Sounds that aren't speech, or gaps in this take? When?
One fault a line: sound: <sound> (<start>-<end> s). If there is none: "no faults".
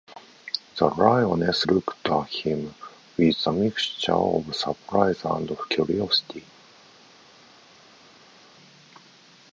no faults